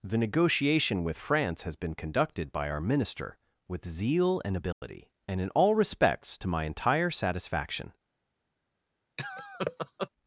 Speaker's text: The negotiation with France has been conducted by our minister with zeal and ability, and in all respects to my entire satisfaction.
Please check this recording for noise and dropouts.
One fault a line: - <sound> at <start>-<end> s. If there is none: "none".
- dropout at 4.7-4.8 s
- laugh at 9.2-10.1 s